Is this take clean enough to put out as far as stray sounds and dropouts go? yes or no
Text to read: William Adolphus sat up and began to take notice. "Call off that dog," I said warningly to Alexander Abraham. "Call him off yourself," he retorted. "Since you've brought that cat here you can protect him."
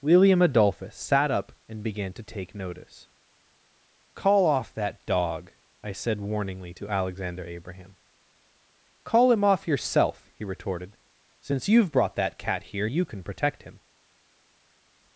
yes